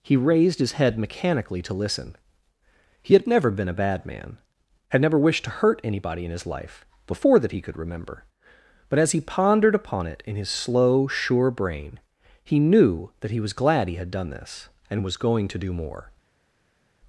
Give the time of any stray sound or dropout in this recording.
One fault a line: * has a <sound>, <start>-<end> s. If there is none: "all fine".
all fine